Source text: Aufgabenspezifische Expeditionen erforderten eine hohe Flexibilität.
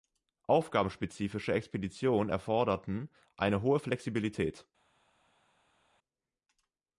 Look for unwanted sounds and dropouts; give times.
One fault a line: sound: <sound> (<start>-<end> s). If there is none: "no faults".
no faults